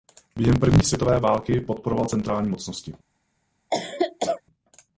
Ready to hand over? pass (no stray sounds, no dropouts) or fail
fail